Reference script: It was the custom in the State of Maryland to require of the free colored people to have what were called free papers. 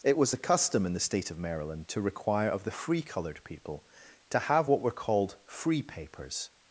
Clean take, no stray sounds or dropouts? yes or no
yes